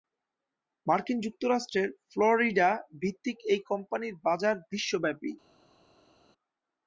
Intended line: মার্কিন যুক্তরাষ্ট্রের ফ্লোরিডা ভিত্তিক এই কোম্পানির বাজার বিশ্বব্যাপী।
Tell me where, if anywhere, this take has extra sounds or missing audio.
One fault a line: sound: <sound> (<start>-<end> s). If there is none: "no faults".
no faults